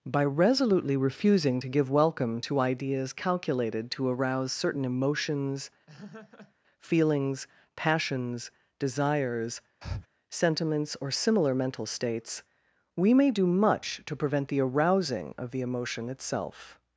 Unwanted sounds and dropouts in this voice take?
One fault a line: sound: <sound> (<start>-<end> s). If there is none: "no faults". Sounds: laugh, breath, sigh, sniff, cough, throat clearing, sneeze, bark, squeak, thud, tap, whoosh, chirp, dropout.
sound: laugh (5.9-6.5 s)
sound: breath (9.8-10.1 s)